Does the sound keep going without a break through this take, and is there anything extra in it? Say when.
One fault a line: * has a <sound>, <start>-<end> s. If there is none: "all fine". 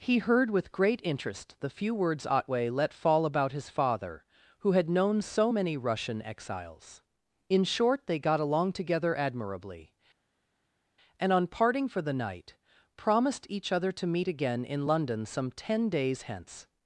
all fine